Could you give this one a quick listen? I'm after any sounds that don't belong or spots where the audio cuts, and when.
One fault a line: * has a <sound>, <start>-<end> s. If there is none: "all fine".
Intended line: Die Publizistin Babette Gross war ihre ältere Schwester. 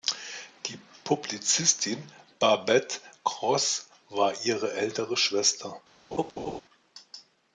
* has a laugh, 6.1-6.6 s